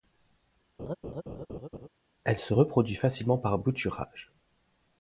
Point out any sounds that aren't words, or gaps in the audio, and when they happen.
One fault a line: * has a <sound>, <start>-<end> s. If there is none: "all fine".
* has a laugh, 0.8-1.9 s